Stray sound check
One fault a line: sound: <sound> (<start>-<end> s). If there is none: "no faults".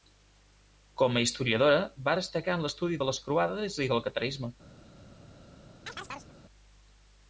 sound: chirp (5.9-6.3 s)